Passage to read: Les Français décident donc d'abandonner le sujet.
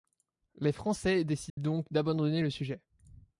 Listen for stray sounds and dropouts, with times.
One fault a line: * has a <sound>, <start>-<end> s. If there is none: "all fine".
* has a dropout, 1.5-1.6 s